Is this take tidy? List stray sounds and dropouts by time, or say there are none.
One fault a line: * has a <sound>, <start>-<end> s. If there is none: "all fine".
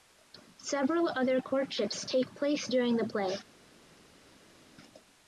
all fine